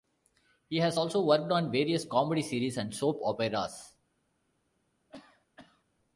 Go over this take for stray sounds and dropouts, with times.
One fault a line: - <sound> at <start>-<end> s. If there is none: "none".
- cough at 5.1-5.8 s